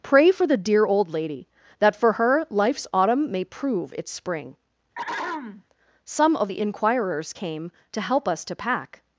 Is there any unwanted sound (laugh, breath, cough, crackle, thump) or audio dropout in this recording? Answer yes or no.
yes